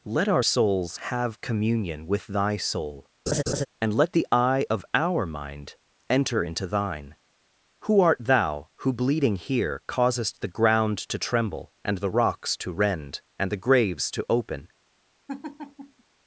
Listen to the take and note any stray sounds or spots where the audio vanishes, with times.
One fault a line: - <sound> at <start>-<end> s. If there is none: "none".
- laugh at 3.3-3.7 s
- laugh at 15.3-16.0 s